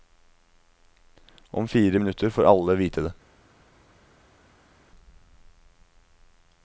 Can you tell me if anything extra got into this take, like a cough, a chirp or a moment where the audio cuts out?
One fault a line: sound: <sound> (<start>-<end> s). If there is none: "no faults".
no faults